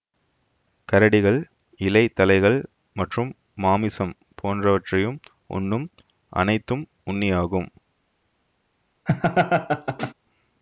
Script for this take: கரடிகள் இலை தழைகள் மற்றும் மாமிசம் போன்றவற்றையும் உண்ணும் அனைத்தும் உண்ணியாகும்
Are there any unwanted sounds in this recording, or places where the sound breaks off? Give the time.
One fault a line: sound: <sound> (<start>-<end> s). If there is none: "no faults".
sound: laugh (9.1-10.1 s)